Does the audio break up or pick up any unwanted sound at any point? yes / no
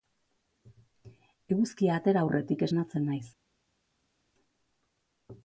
no